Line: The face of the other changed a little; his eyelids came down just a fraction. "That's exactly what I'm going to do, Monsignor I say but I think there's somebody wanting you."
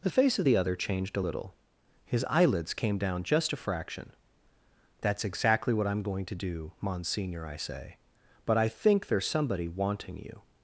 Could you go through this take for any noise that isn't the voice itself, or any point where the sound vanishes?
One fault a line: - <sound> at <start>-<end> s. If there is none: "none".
none